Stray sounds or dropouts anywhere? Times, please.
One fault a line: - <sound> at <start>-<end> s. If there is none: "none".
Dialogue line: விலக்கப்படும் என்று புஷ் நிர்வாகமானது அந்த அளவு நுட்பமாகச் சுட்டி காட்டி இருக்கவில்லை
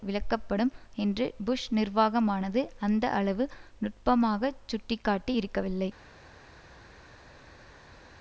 none